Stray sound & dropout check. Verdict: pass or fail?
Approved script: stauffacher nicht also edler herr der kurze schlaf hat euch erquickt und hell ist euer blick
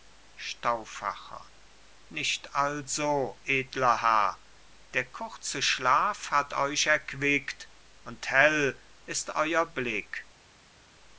pass